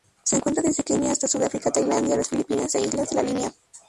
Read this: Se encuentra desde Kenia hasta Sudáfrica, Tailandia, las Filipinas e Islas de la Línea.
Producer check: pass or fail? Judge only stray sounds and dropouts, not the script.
pass